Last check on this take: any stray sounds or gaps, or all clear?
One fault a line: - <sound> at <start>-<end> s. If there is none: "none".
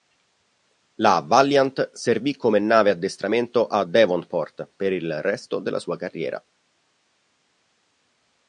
none